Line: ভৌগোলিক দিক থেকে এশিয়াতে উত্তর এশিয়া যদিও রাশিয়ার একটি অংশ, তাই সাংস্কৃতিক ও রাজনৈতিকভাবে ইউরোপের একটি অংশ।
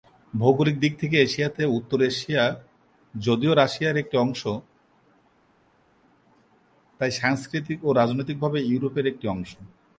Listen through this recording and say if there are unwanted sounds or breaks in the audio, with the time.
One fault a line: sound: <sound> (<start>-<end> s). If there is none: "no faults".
no faults